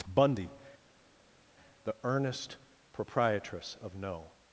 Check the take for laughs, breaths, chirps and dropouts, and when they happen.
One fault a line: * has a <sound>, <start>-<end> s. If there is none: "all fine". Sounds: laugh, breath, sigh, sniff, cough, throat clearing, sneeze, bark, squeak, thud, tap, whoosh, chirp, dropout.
all fine